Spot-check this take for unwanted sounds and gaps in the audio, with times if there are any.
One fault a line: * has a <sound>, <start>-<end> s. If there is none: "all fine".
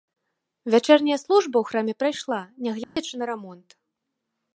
* has a dropout, 2.8-3.0 s